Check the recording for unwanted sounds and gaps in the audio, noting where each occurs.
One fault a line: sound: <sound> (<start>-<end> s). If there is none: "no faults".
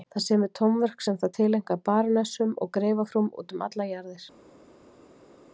no faults